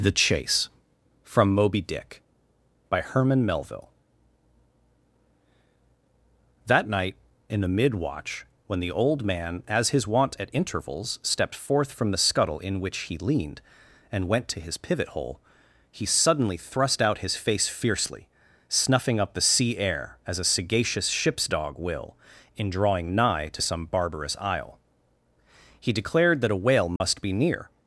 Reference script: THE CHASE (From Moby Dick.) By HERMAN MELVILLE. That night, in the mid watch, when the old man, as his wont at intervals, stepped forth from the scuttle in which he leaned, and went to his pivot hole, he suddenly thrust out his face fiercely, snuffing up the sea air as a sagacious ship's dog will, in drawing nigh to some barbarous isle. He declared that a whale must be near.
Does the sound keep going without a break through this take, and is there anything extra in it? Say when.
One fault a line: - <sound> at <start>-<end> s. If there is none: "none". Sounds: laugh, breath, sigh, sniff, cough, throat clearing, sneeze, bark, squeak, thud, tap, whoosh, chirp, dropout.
- dropout at 27.0-27.0 s